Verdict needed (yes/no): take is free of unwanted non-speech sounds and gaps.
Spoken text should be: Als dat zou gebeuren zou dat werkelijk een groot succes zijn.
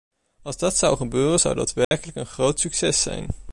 no